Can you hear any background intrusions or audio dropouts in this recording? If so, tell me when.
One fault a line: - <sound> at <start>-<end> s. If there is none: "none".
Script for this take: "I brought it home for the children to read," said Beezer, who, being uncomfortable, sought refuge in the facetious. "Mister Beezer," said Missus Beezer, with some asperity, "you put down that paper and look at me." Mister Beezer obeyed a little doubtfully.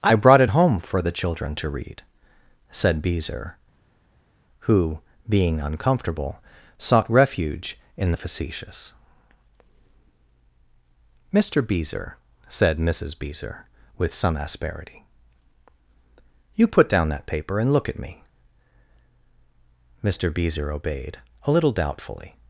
none